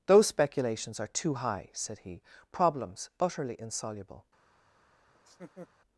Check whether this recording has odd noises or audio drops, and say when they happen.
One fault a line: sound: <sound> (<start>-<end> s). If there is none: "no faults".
sound: laugh (5.1-5.7 s)